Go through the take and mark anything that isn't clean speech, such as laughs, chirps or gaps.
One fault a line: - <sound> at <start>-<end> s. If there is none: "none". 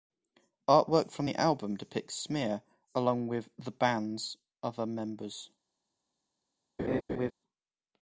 - laugh at 6.8-7.3 s